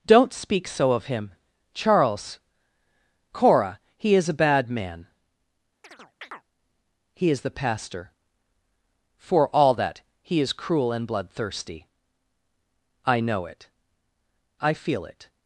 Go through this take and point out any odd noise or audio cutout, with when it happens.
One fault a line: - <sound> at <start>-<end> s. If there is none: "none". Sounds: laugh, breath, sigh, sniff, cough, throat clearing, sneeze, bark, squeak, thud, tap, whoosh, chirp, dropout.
- chirp at 5.8-6.4 s